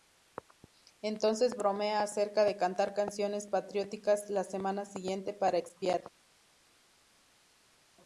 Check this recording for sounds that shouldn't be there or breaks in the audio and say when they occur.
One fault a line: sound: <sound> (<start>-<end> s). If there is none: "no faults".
no faults